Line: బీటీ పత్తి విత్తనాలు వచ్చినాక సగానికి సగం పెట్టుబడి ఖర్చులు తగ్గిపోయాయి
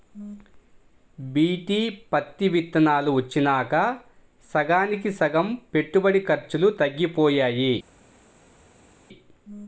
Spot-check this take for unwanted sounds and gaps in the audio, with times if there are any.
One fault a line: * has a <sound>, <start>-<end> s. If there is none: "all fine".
all fine